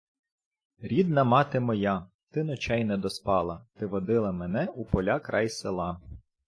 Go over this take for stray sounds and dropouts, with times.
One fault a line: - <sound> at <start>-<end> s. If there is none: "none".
none